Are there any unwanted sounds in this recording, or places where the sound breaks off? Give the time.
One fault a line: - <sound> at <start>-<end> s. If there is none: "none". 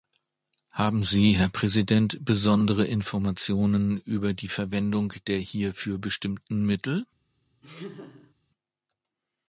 - laugh at 7.6-8.3 s